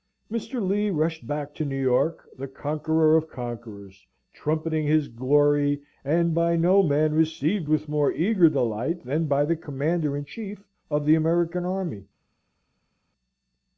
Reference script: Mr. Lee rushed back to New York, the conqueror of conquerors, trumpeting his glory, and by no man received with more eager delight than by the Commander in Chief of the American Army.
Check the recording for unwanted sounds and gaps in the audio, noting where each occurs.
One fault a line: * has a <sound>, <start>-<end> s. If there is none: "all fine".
all fine